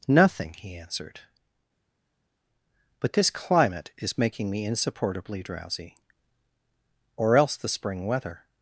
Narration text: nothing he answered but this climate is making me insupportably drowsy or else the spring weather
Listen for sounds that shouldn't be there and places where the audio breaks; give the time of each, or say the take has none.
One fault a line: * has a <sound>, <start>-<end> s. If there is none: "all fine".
all fine